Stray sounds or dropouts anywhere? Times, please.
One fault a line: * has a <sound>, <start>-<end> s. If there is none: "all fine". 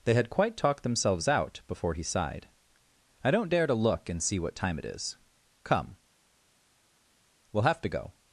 all fine